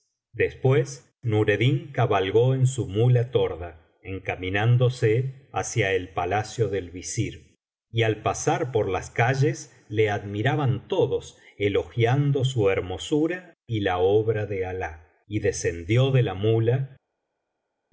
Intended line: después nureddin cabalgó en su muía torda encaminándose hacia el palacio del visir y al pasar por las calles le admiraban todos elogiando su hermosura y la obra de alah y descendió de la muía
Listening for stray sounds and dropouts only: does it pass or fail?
pass